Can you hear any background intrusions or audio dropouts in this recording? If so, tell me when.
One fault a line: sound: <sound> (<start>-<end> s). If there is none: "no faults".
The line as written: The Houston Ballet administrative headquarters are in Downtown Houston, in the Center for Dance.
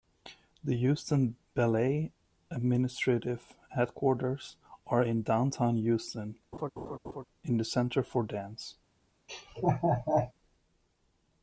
sound: laugh (6.5-7.2 s)
sound: laugh (9.3-10.3 s)